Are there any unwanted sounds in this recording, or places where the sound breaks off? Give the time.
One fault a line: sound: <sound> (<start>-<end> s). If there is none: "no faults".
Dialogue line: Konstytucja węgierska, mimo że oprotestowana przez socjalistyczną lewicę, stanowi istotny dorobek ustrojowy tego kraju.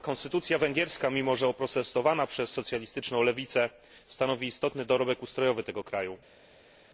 no faults